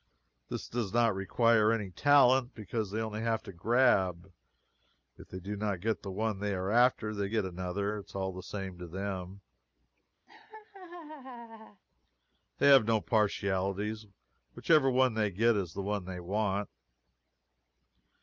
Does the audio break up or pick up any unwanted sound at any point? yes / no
yes